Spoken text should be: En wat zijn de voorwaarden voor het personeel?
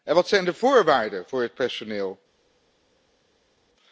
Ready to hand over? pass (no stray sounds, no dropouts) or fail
pass